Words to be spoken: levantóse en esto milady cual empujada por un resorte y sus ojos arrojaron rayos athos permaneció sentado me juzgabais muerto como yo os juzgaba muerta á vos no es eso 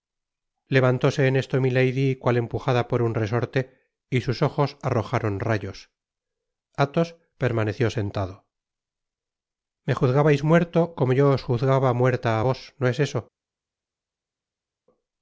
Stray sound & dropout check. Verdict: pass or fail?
pass